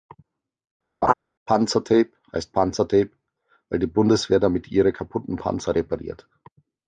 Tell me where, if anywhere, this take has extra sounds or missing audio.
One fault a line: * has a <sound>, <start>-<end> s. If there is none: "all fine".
* has a laugh, 1.0-1.1 s